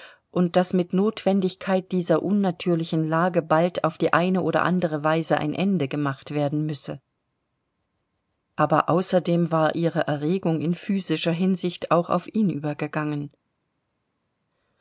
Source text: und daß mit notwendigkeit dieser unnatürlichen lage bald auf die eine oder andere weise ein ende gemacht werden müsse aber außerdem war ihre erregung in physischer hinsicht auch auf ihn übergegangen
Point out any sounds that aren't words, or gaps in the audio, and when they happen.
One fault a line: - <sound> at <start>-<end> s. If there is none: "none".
none